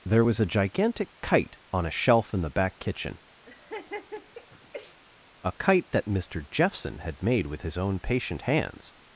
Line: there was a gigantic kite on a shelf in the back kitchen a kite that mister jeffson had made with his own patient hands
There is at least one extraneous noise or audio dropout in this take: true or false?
true